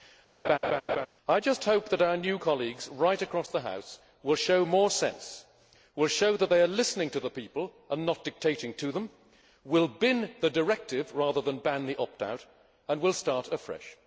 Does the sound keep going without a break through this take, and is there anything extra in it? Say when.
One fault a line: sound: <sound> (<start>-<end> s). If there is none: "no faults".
sound: laugh (0.4-1.1 s)